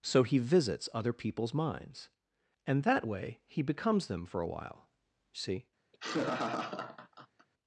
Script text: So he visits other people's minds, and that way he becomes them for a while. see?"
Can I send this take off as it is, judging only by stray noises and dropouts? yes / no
no